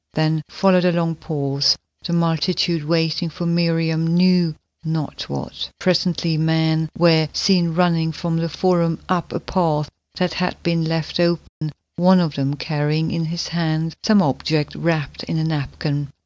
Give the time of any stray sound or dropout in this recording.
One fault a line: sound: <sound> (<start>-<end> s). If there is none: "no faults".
sound: dropout (11.5-11.6 s)